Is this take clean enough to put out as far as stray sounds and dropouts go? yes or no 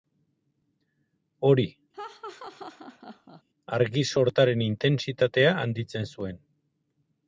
no